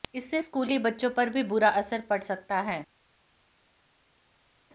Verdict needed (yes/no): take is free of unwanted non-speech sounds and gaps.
yes